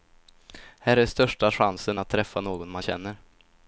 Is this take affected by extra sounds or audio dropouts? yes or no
no